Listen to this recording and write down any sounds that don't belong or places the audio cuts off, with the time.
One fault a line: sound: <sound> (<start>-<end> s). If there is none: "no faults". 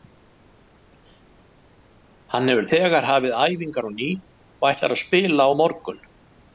no faults